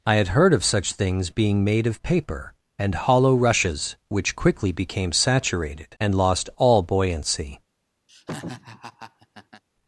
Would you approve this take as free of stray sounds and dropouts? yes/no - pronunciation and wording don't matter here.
no